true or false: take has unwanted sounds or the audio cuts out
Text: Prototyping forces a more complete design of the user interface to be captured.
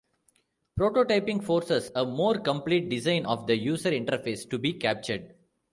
false